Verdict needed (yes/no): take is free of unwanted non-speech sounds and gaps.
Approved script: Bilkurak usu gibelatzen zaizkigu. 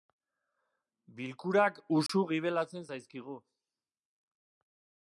no